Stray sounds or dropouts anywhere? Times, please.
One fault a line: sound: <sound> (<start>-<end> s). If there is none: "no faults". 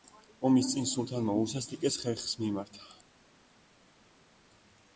no faults